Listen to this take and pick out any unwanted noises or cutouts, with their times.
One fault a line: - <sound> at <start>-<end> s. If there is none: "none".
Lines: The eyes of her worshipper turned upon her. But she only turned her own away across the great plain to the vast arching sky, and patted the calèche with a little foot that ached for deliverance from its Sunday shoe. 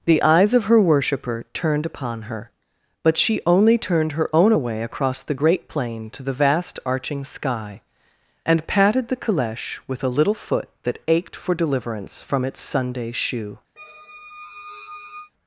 - squeak at 13.8-15.3 s